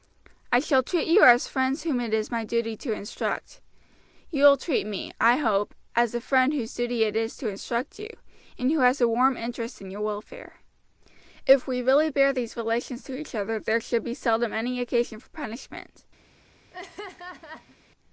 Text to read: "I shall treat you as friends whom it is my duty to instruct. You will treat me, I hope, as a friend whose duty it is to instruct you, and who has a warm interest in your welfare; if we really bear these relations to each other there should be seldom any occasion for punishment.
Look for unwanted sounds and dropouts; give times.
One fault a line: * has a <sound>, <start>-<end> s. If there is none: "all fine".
* has a laugh, 16.7-17.8 s